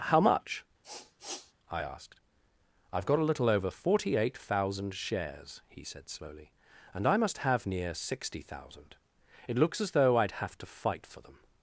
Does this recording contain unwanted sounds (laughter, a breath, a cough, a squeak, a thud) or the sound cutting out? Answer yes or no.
yes